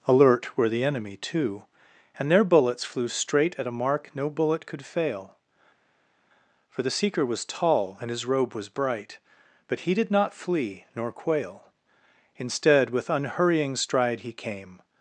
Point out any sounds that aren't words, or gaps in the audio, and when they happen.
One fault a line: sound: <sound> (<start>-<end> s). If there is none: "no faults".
no faults